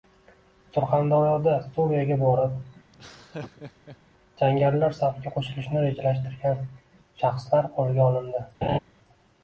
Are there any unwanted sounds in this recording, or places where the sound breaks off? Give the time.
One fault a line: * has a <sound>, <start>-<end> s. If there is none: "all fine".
* has a laugh, 2.9-4.0 s
* has a laugh, 8.6-8.8 s